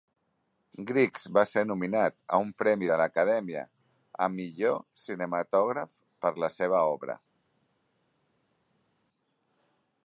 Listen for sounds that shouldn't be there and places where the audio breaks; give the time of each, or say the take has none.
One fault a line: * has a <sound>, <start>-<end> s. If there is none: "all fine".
all fine